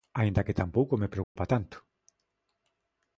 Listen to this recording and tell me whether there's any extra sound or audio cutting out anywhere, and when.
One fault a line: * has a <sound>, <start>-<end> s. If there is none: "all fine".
* has a dropout, 1.2-1.4 s